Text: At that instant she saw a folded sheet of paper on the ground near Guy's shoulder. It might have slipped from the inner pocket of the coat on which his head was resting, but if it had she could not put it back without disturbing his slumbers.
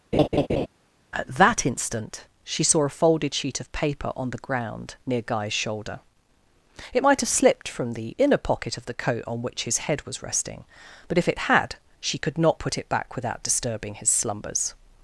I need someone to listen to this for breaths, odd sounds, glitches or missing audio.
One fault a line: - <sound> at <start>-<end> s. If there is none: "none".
- laugh at 0.1-0.7 s